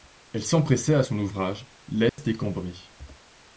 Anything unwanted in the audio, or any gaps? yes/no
yes